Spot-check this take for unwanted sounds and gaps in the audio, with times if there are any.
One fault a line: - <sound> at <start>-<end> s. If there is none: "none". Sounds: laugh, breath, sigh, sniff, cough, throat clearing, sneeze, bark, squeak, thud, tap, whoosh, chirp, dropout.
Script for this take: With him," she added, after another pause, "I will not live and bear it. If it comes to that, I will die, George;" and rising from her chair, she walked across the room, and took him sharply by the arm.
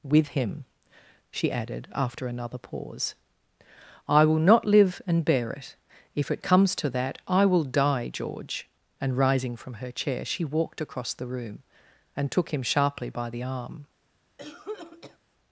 - cough at 14.4-15.2 s